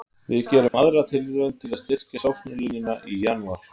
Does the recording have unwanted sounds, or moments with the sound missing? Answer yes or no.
yes